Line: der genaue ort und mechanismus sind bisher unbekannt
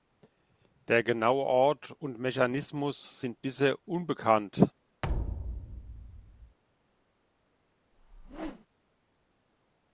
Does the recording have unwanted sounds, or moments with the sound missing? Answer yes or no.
yes